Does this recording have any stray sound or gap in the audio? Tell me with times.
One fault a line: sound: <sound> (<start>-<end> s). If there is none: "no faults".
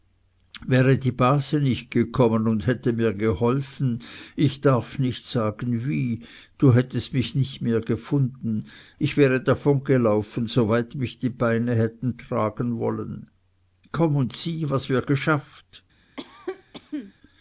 sound: cough (16.2-17.1 s)